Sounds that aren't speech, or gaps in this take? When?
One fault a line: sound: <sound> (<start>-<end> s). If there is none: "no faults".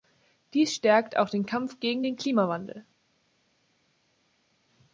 no faults